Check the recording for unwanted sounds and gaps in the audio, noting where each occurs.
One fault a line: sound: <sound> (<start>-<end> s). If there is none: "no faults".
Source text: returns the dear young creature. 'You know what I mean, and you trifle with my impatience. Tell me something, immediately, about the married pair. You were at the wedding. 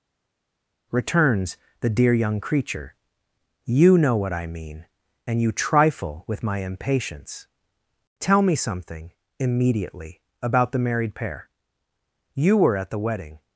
no faults